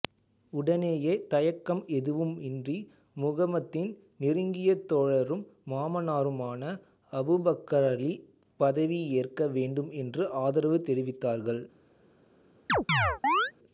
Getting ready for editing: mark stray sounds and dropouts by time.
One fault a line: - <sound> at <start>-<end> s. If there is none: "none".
- chirp at 12.7-13.5 s